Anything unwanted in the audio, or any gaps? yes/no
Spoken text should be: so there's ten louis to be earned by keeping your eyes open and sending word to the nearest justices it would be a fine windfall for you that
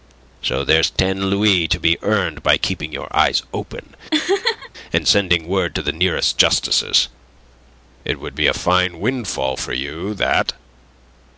yes